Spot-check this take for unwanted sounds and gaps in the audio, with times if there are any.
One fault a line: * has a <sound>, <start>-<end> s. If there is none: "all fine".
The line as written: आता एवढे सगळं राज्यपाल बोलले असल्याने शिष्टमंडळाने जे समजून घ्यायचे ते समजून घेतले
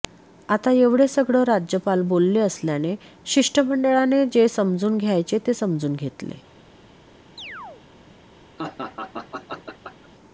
* has a chirp, 7.4-7.8 s
* has a laugh, 8.6-10.1 s